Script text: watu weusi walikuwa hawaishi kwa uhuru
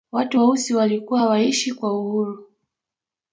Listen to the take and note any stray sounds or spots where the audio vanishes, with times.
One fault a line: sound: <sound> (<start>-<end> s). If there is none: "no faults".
no faults